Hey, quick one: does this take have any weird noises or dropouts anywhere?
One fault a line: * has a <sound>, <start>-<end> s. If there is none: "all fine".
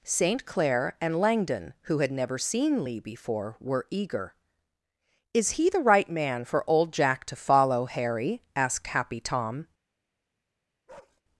* has a bark, 10.9-11.2 s